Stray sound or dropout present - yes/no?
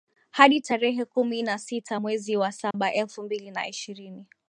yes